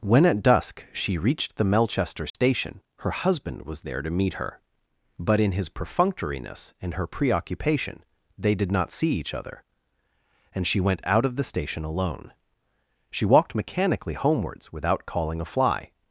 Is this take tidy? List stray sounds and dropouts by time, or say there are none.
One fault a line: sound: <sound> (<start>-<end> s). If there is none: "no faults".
sound: dropout (2.3-2.3 s)